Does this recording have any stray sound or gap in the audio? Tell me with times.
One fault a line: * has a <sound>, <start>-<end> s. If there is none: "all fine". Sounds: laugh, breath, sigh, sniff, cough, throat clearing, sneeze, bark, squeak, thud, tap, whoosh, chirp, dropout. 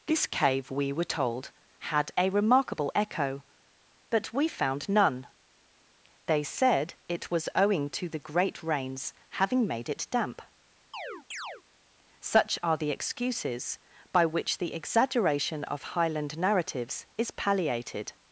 * has a chirp, 10.9-11.6 s